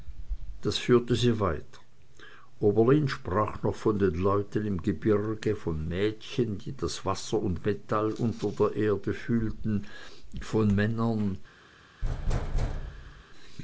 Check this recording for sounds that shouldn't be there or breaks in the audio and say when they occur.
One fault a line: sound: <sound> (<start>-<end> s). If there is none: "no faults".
sound: thud (12.0-13.2 s)